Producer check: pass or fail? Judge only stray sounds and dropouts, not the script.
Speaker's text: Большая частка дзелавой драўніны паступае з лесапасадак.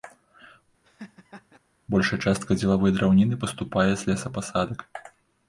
fail